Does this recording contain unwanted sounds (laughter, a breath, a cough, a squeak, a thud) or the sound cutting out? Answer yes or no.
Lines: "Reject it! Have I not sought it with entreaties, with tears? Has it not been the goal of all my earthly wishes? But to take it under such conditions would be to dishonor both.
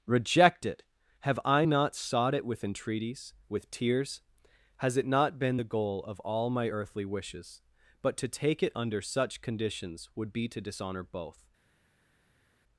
no